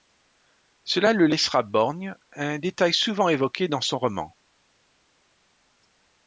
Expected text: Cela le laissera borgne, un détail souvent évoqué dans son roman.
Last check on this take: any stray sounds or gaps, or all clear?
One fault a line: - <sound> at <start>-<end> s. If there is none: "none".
none